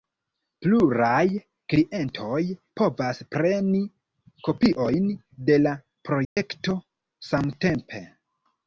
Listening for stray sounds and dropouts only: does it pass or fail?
fail